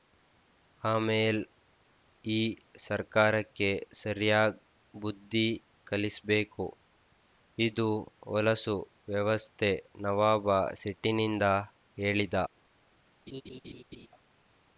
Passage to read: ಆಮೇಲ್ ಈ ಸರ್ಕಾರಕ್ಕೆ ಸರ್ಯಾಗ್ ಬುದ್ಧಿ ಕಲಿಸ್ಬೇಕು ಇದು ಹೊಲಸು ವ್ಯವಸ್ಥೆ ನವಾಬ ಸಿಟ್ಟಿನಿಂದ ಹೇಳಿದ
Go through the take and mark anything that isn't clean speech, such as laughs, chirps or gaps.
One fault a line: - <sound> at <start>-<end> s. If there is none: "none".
- laugh at 13.3-14.1 s